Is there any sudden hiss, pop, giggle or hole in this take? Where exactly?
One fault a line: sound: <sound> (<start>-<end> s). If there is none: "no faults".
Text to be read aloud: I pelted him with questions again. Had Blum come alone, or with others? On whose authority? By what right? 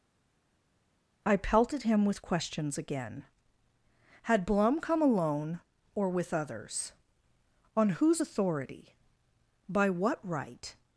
no faults